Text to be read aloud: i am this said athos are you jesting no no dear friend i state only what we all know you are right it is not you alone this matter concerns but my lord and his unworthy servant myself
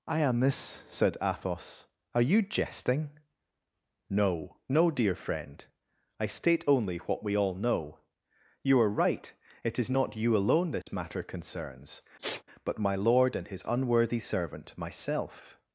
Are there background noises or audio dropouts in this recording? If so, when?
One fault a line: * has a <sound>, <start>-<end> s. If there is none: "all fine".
* has a dropout, 10.8-10.9 s
* has a sniff, 12.2-12.4 s